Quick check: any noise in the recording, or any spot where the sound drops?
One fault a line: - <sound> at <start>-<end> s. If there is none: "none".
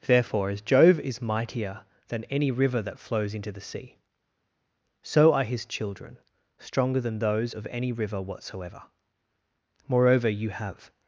none